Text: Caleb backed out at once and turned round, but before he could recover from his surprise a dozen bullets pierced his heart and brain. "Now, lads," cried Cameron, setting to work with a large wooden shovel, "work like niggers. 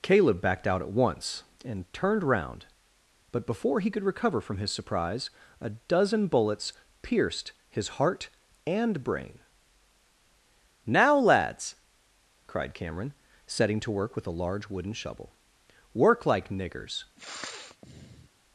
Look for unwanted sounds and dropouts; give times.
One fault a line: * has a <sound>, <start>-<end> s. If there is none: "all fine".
* has a sniff, 17.2-18.3 s